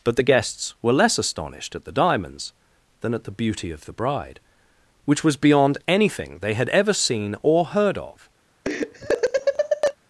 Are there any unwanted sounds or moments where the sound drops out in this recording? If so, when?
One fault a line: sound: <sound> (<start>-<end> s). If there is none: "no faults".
sound: laugh (8.6-9.9 s)